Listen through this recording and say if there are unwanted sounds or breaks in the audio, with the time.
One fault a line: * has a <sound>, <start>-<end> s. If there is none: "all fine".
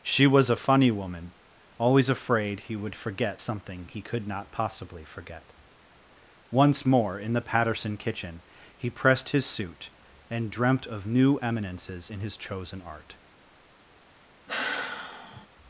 * has a sigh, 14.5-15.5 s